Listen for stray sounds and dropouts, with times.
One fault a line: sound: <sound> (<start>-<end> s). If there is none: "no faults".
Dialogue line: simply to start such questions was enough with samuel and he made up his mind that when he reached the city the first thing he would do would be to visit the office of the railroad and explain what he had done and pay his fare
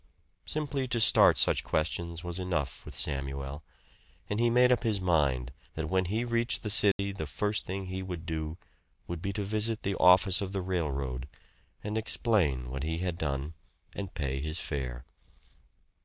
sound: dropout (6.9-7.0 s)